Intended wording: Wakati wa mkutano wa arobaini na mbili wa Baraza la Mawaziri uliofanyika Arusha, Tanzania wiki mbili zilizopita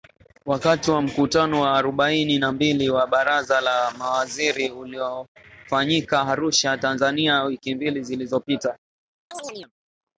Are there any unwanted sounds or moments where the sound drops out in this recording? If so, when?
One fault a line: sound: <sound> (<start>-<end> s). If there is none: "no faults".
sound: chirp (9.3-9.7 s)